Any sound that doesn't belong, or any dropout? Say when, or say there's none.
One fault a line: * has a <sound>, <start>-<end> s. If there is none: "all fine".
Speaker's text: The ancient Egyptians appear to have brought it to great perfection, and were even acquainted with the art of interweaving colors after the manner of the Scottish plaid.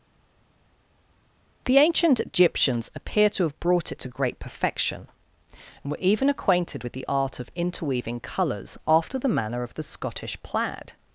all fine